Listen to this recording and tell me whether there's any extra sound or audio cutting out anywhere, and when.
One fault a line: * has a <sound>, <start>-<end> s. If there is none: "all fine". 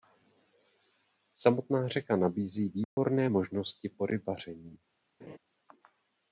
* has a dropout, 2.8-3.0 s
* has a laugh, 5.2-5.4 s